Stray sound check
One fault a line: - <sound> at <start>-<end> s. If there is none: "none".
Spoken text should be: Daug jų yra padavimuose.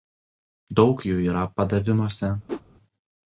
- whoosh at 2.5-2.6 s